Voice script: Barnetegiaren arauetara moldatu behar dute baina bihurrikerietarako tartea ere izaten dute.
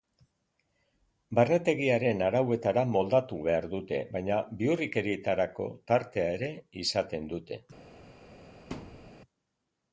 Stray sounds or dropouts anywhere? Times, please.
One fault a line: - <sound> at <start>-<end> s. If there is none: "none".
- thud at 8.7-9.1 s